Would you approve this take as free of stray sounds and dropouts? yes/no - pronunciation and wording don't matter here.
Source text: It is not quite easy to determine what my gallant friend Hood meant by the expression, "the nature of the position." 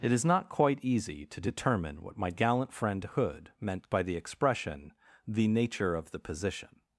yes